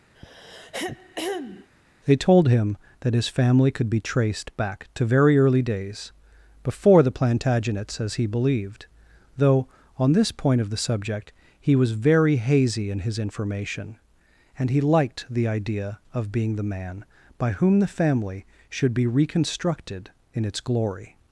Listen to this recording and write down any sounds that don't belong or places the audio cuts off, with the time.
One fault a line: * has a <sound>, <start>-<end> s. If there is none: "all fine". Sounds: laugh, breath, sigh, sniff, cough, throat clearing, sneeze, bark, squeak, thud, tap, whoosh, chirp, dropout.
* has a throat clearing, 0.1-1.7 s